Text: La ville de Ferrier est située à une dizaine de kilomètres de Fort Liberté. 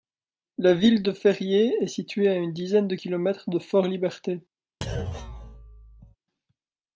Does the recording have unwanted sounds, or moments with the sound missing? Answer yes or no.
yes